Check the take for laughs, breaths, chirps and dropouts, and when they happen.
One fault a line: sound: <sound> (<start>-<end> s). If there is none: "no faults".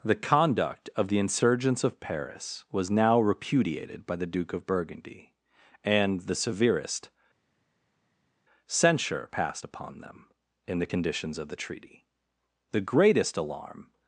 no faults